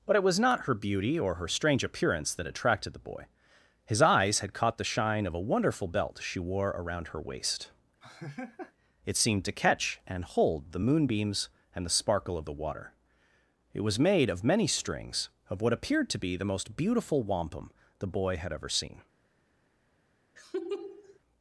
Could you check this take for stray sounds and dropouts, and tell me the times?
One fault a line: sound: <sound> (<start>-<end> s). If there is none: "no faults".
sound: laugh (8.0-8.7 s)
sound: laugh (20.4-21.2 s)